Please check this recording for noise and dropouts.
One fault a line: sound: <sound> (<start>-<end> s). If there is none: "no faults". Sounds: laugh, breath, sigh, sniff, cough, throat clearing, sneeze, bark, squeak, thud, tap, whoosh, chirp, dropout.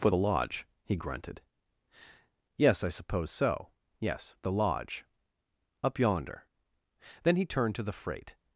no faults